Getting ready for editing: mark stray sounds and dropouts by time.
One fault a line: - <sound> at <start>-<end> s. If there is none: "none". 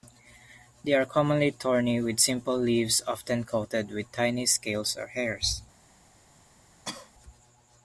- cough at 6.8-7.1 s